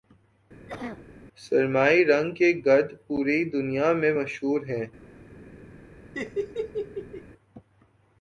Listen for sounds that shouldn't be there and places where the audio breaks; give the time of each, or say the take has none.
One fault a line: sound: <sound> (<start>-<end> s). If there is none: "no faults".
sound: cough (0.7-1.0 s)
sound: laugh (6.1-7.2 s)